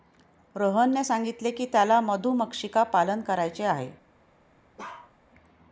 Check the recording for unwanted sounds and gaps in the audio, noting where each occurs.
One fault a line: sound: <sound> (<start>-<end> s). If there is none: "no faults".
sound: bark (4.8-5.1 s)